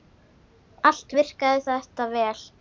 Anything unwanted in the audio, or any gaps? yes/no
no